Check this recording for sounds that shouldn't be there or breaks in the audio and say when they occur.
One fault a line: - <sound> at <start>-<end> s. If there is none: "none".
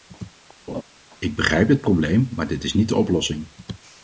- laugh at 0.7-0.8 s